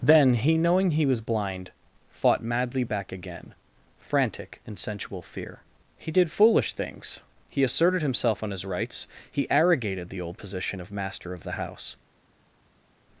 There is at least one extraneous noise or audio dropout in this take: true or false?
false